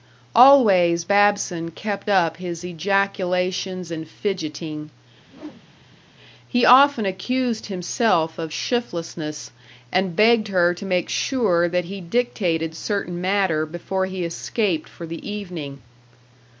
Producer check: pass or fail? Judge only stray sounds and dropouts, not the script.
fail